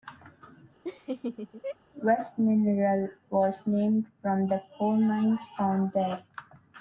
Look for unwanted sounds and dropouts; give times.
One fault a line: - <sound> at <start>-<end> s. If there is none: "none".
- laugh at 0.8-1.8 s